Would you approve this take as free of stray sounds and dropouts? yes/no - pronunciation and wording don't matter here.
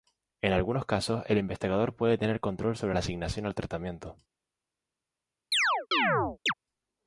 no